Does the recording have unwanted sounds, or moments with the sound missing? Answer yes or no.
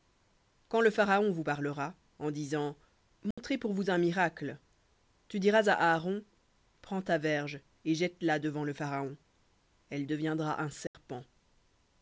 yes